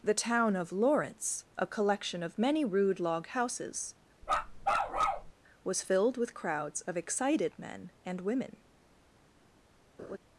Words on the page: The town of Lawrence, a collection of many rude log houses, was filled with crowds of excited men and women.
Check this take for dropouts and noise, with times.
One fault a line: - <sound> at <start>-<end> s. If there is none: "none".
- bark at 4.2-5.3 s
- laugh at 10.0-10.2 s